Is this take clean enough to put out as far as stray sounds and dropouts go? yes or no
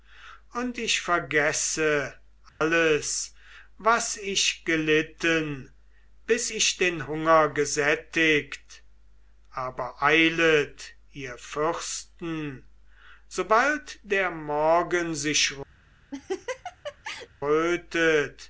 no